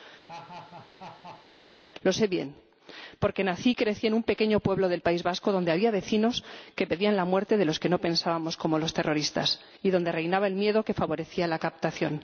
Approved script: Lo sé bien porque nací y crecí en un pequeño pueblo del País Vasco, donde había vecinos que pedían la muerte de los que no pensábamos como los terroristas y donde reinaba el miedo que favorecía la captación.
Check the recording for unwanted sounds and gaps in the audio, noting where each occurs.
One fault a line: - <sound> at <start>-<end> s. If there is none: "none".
- laugh at 0.3-1.5 s